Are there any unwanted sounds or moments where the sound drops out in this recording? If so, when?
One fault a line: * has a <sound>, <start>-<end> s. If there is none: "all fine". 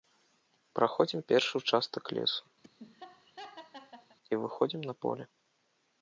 * has a laugh, 2.6-4.2 s